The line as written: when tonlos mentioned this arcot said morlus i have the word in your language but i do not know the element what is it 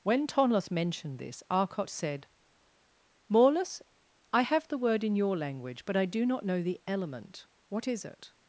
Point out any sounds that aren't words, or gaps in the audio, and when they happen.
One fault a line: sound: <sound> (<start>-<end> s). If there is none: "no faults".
no faults